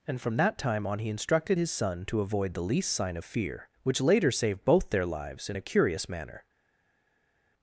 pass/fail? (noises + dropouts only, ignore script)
pass